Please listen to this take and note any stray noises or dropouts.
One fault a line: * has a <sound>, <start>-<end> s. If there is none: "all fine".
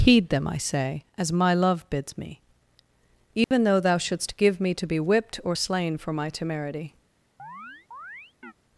* has a dropout, 3.4-3.5 s
* has a chirp, 7.4-8.5 s